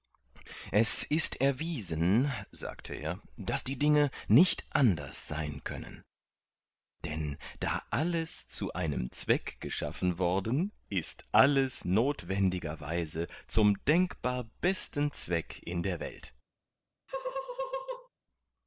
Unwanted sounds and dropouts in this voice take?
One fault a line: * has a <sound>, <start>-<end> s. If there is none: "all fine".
* has a laugh, 17.1-18.1 s